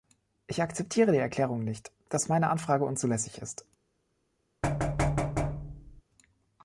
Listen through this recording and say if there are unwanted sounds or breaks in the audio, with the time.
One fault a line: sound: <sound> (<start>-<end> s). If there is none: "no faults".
sound: thud (4.6-6.0 s)